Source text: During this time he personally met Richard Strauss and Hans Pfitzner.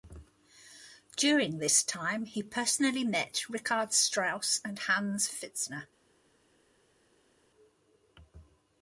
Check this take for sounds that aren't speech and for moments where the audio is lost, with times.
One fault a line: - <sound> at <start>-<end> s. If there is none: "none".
none